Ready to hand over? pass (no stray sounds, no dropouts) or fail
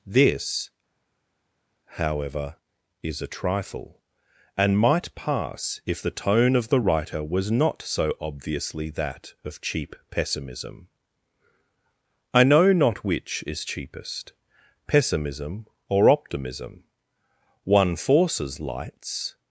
pass